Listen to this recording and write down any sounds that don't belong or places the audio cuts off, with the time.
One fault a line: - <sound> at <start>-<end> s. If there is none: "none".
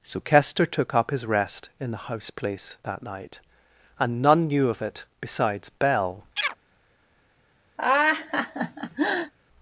- chirp at 6.4-6.6 s
- laugh at 7.8-9.3 s